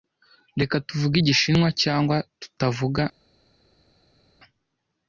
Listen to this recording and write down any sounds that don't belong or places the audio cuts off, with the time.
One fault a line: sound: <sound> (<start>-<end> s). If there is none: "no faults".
no faults